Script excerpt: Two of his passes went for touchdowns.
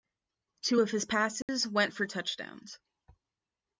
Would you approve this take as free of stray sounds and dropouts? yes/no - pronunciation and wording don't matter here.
no